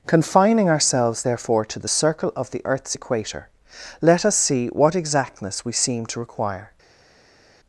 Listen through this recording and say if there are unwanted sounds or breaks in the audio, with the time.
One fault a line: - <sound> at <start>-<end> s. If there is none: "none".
none